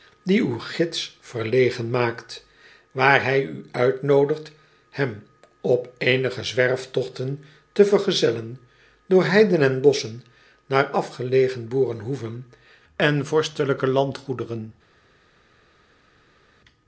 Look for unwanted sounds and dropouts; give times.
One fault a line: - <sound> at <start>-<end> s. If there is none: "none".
none